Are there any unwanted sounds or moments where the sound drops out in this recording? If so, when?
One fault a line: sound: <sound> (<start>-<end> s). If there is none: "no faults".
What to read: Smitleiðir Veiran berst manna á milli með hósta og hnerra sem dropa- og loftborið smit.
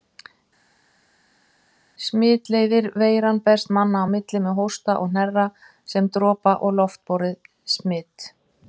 no faults